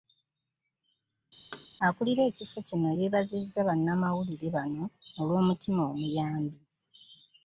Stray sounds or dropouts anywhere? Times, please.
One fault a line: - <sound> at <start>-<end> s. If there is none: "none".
- thud at 1.5-1.7 s